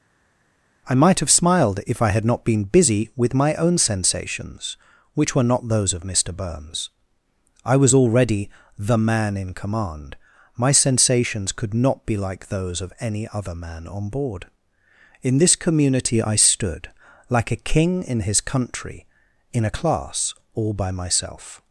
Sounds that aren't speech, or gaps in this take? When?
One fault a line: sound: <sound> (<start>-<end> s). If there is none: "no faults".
no faults